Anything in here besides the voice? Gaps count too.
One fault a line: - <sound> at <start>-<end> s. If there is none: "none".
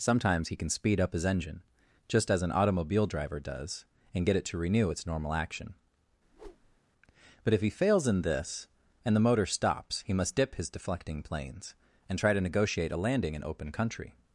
- whoosh at 6.2-6.8 s